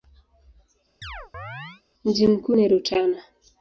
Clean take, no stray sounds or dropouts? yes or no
no